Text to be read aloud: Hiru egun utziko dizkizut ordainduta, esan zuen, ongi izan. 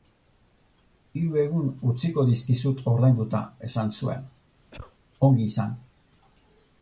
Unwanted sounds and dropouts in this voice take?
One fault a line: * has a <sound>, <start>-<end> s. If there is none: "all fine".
* has a cough, 4.7-5.0 s